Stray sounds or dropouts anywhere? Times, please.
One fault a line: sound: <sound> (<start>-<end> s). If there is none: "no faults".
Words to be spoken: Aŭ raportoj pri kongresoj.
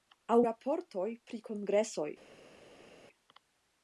no faults